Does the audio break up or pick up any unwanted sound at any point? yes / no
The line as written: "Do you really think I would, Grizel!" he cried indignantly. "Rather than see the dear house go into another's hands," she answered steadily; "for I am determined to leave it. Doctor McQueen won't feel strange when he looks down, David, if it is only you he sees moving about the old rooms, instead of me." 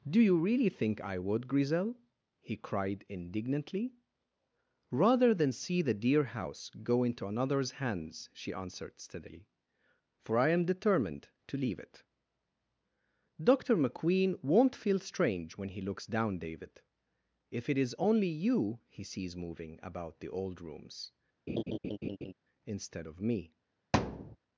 yes